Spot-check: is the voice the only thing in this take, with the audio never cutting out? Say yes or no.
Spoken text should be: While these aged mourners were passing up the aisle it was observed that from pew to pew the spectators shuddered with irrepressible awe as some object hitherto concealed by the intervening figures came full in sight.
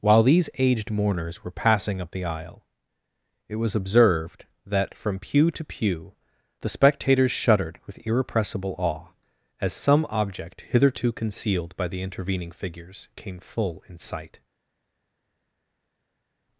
yes